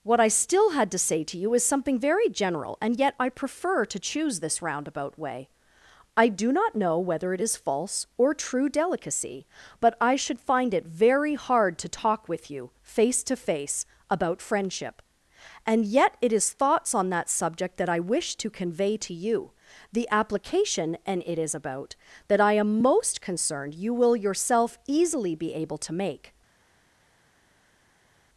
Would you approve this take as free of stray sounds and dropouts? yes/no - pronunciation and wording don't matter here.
yes